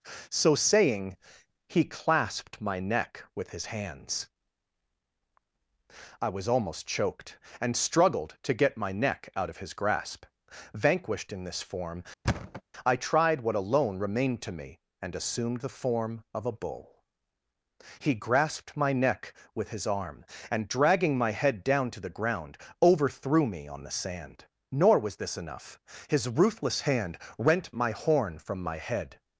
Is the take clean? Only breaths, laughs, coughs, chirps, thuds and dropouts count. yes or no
no